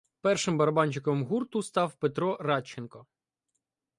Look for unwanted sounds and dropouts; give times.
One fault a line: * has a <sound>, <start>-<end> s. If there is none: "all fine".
all fine